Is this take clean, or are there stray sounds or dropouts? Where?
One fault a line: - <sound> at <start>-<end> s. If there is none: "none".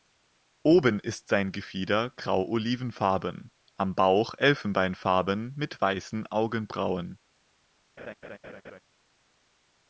- laugh at 8.0-8.8 s